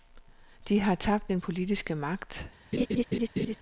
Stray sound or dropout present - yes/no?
yes